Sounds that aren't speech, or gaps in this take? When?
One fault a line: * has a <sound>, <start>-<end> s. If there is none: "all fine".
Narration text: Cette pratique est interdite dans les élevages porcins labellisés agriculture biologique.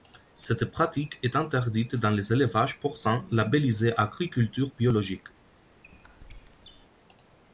* has a squeak, 5.8-6.9 s